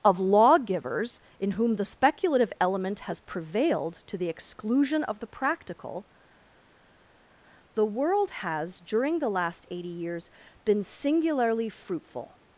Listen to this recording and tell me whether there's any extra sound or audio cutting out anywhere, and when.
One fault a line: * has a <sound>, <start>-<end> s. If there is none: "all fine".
all fine